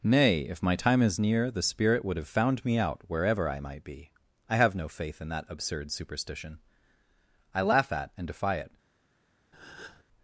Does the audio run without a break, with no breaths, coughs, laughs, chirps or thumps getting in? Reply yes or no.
no